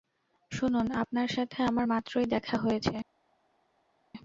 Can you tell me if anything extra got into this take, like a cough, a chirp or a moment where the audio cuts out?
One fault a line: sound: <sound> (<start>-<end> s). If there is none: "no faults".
no faults